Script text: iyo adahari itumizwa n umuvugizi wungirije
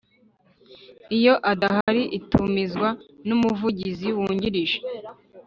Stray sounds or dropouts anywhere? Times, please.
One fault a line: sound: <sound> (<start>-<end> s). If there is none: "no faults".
sound: dropout (1.8-1.9 s)